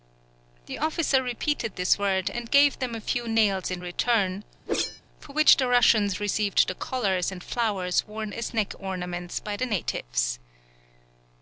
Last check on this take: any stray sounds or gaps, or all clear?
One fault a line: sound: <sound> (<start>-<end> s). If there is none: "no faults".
sound: whoosh (4.7-5.0 s)